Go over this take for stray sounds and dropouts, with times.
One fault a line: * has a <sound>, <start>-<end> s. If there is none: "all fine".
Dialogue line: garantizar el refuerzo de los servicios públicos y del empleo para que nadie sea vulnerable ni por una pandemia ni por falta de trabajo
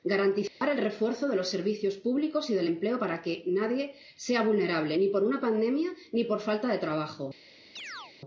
* has a dropout, 0.5-0.6 s
* has a chirp, 7.8-8.1 s